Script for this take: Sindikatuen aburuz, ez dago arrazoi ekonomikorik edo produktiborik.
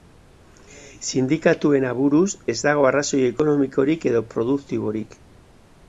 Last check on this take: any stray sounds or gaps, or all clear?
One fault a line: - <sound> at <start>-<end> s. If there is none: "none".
none